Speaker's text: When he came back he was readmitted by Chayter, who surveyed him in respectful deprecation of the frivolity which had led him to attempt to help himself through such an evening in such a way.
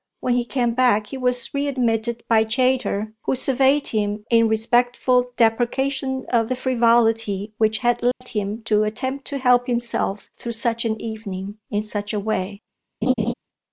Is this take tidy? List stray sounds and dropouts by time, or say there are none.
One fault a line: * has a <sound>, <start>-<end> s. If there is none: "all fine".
* has a dropout, 8.1-8.2 s
* has a laugh, 13.0-13.3 s